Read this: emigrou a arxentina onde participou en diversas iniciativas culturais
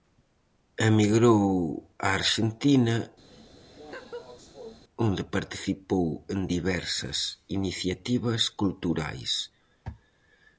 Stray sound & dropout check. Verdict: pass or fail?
fail